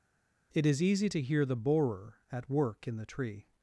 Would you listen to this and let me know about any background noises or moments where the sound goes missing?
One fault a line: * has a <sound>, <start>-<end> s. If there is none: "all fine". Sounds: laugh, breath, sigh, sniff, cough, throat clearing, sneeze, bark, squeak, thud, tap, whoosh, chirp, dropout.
all fine